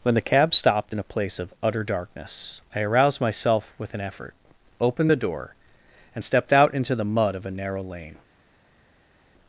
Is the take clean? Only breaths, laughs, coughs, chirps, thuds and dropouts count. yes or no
yes